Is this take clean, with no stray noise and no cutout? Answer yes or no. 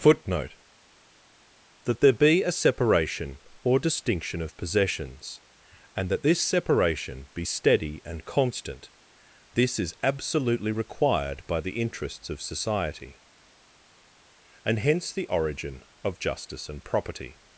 yes